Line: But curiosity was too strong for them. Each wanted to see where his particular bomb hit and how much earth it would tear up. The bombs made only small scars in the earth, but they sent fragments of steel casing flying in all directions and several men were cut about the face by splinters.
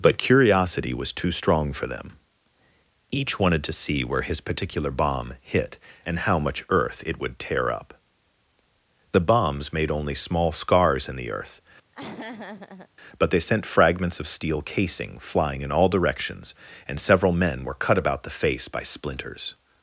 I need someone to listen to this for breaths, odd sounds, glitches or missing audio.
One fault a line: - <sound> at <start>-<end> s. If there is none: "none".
- laugh at 11.9-12.9 s